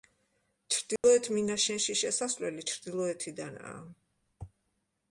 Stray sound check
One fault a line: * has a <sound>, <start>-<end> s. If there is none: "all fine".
* has a dropout, 1.0-1.0 s